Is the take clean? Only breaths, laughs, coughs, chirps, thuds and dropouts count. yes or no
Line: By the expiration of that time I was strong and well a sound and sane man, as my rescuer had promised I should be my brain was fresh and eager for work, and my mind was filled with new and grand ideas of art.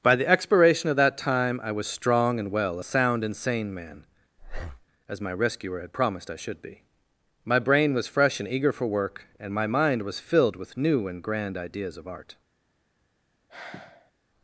no